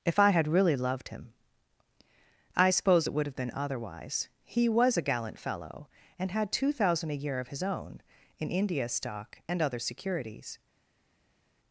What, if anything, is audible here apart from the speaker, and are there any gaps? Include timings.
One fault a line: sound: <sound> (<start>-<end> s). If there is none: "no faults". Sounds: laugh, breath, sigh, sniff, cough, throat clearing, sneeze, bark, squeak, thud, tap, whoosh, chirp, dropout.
no faults